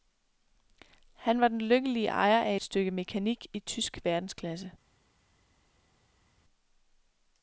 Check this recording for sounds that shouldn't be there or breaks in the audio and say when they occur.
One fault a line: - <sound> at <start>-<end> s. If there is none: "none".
none